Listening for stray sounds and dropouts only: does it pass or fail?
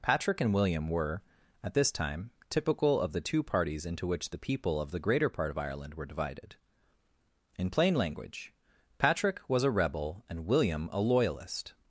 pass